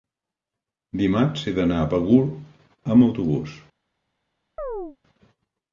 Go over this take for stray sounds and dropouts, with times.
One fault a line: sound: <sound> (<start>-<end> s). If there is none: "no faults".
sound: chirp (4.6-5.0 s)